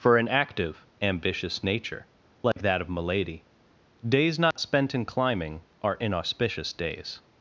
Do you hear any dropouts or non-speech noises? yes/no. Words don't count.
yes